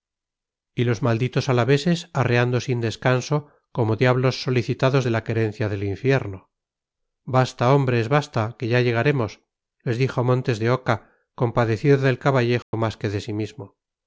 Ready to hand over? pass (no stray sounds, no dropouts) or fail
fail